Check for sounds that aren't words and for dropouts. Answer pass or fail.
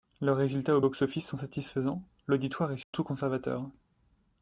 fail